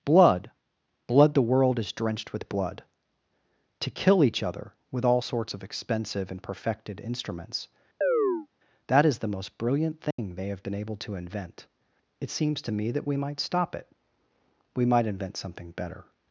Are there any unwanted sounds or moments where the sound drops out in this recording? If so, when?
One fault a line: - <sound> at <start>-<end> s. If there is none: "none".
- chirp at 8.0-8.5 s
- dropout at 10.1-10.2 s